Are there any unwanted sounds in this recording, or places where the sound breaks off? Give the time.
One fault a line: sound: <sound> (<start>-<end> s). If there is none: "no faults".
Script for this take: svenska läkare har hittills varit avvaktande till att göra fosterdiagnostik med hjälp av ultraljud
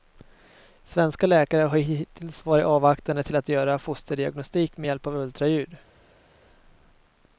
no faults